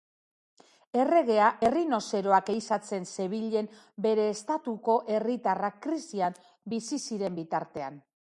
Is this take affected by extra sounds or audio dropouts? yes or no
no